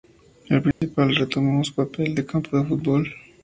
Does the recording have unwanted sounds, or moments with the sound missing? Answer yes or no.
yes